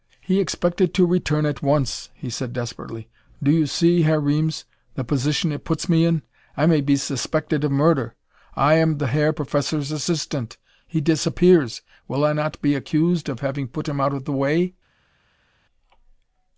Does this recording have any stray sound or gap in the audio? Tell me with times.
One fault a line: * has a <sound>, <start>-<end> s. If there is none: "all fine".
all fine